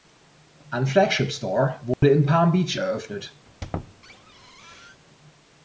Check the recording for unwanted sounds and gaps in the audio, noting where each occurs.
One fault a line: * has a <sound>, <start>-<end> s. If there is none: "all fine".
* has a dropout, 1.9-2.0 s
* has a squeak, 3.5-5.0 s